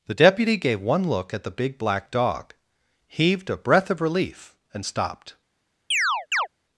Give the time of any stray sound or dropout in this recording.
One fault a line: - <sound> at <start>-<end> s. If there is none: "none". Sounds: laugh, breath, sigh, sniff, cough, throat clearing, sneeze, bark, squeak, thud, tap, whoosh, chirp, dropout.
- chirp at 5.9-6.5 s